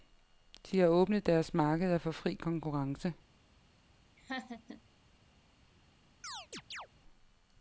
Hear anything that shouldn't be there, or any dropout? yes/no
yes